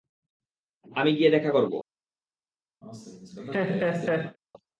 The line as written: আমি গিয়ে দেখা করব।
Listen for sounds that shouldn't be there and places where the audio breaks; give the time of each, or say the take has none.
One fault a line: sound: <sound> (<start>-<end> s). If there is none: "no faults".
sound: laugh (2.8-4.4 s)